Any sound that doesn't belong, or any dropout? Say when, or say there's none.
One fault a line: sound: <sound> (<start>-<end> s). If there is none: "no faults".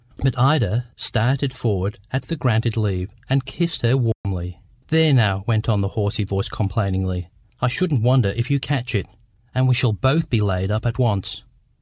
sound: dropout (4.1-4.2 s)